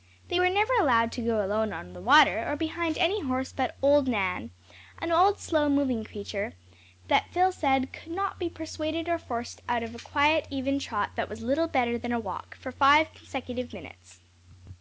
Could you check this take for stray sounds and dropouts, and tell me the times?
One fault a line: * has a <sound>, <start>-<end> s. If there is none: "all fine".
all fine